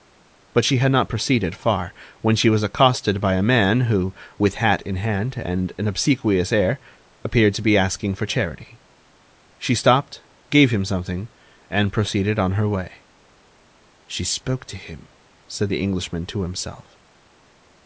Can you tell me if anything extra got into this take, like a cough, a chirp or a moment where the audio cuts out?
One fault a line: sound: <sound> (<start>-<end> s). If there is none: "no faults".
no faults